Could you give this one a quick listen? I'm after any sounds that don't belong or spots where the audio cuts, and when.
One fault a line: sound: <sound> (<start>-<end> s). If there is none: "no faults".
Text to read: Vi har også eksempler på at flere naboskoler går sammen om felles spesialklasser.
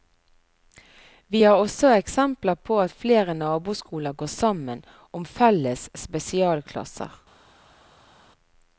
no faults